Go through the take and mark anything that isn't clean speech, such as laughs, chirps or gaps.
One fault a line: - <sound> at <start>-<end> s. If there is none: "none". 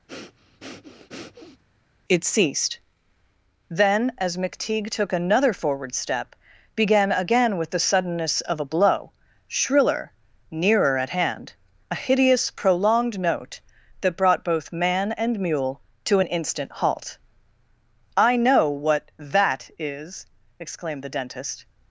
- breath at 0.1-1.6 s